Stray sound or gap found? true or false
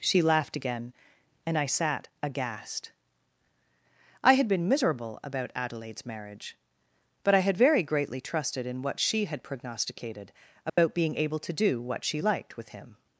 true